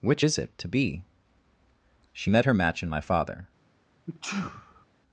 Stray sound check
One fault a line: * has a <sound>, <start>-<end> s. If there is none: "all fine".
* has a sneeze, 4.1-4.9 s